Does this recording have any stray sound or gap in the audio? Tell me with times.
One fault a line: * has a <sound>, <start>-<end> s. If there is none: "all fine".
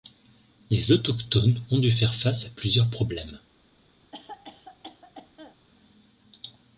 * has a cough, 4.1-5.6 s